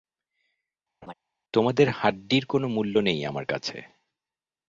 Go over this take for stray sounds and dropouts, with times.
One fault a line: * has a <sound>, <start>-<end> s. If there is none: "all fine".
* has a laugh, 1.0-1.1 s